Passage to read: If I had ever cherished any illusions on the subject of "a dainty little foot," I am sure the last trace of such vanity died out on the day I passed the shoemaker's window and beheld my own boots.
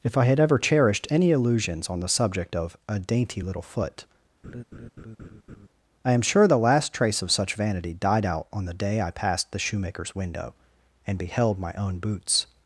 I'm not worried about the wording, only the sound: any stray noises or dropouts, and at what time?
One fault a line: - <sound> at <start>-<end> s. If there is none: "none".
- laugh at 4.4-5.7 s